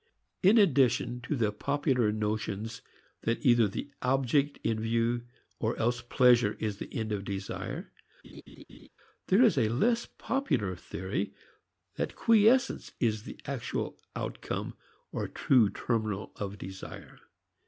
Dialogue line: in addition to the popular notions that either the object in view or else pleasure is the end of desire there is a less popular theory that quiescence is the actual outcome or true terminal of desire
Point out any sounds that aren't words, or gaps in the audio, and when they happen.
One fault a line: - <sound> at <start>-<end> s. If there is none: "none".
- laugh at 8.2-8.9 s